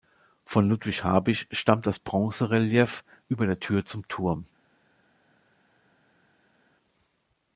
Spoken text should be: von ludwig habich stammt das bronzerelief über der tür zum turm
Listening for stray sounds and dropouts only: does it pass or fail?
pass